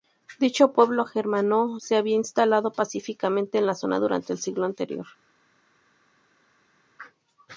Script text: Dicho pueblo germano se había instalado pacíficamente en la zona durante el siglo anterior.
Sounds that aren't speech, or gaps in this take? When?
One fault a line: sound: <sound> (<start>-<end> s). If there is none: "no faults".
no faults